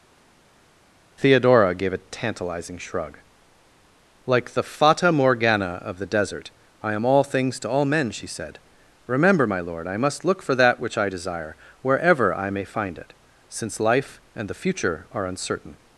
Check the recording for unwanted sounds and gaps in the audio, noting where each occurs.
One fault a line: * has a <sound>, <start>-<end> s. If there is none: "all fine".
all fine